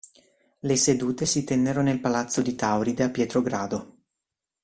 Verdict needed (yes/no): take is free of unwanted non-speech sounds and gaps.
yes